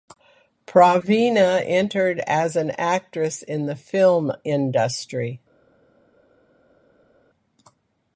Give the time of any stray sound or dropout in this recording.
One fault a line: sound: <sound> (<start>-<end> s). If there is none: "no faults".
no faults